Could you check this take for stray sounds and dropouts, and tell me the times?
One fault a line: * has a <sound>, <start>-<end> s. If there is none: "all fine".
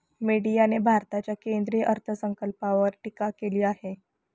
all fine